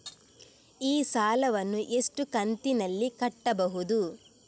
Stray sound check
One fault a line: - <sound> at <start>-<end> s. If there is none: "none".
none